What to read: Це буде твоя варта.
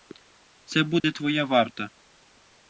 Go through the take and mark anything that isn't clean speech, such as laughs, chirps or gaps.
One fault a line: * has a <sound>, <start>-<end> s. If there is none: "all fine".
* has a dropout, 1.0-1.0 s